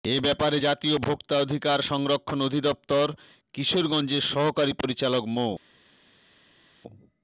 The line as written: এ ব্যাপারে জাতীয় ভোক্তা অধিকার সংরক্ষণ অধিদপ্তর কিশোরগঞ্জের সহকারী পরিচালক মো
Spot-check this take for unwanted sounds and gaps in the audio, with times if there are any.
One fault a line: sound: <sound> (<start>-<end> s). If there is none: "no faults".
no faults